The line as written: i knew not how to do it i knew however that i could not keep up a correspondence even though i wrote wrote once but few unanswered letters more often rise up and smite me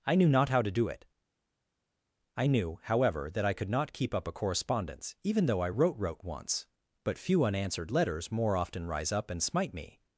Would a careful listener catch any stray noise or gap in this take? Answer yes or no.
no